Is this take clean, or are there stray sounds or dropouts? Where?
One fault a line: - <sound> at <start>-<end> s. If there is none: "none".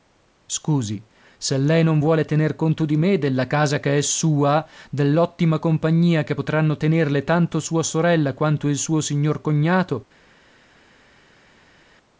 none